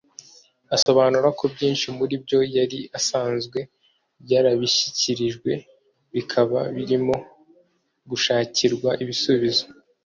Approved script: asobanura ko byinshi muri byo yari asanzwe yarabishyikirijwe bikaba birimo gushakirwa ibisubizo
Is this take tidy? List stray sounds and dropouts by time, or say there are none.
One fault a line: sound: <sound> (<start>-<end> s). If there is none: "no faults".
sound: dropout (0.8-0.9 s)